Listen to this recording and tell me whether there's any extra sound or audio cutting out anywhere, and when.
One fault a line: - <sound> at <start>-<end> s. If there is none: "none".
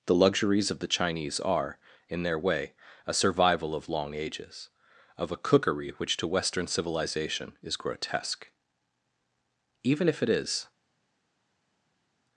none